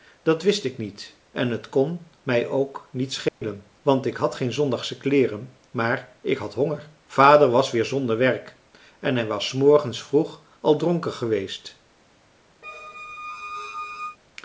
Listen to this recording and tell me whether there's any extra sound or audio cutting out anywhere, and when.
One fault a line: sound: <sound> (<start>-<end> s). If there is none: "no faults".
sound: dropout (3.3-3.4 s)
sound: squeak (12.6-14.2 s)